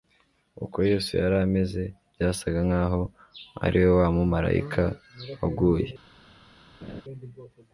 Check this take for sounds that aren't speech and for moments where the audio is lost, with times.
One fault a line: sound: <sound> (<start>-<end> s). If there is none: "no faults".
sound: laugh (6.8-7.0 s)